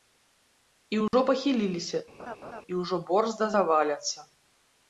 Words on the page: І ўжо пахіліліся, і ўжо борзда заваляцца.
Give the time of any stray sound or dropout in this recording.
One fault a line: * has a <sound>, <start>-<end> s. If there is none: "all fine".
* has a dropout, 1.1-1.1 s
* has a laugh, 2.2-2.6 s